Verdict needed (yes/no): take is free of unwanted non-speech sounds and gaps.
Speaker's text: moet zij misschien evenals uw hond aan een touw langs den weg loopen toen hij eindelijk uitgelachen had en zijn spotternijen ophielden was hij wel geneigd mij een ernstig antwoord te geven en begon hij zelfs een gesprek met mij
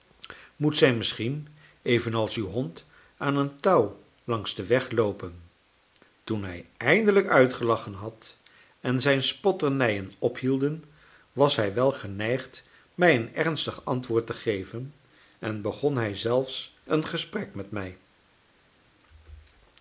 yes